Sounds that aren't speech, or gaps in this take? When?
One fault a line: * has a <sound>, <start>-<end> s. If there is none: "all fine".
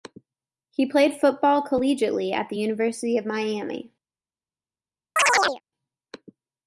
* has a chirp, 5.2-5.6 s